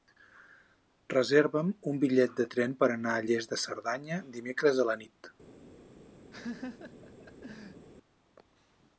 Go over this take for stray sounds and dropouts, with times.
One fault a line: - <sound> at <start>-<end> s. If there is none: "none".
- laugh at 6.3-7.9 s